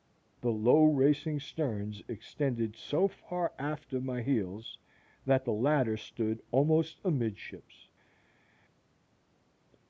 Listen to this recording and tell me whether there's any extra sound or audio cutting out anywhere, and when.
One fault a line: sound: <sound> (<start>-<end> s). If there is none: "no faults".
no faults